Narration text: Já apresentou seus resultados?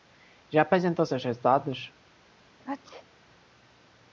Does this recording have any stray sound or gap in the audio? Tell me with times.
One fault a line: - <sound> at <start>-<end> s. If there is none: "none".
- sneeze at 2.6-3.1 s